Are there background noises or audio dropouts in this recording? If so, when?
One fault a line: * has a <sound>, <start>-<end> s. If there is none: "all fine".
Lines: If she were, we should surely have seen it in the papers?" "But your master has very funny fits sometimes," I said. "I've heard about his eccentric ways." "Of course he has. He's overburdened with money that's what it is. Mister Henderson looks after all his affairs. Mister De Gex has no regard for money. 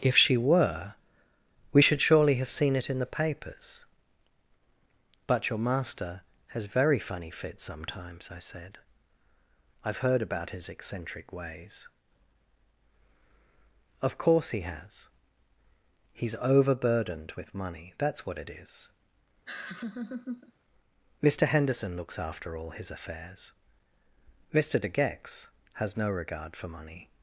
* has a laugh, 19.5-20.5 s